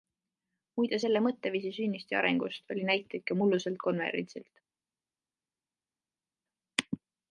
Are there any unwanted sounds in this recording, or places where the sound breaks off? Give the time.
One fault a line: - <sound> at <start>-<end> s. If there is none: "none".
none